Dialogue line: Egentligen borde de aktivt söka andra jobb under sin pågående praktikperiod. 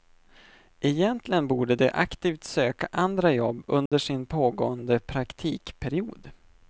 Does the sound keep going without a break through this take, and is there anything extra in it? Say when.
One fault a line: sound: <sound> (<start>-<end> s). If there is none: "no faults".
sound: dropout (3.9-3.9 s)